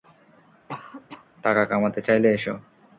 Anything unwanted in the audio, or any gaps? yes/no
yes